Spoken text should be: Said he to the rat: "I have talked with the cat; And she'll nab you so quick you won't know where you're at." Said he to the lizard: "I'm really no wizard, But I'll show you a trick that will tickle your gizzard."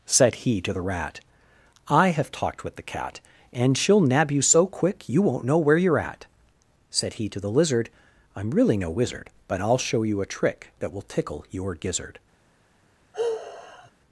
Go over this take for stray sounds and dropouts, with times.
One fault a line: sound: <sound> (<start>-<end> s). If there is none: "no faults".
sound: sigh (13.1-13.9 s)